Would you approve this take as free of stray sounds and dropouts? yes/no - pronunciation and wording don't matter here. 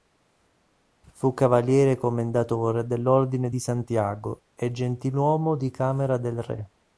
yes